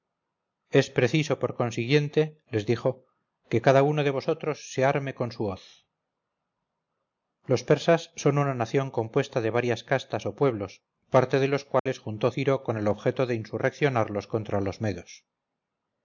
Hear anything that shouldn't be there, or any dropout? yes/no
yes